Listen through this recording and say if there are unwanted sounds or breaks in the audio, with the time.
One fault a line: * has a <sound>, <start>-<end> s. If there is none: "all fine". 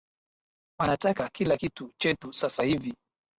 all fine